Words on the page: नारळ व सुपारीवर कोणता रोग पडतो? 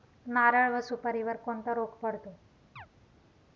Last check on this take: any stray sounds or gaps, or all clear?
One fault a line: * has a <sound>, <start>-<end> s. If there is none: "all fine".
* has a chirp, 2.8-2.9 s